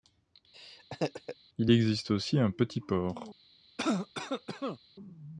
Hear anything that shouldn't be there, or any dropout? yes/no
yes